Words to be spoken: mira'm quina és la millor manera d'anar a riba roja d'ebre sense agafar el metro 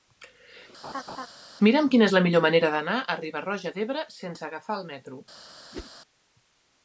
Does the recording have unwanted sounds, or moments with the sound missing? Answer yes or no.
yes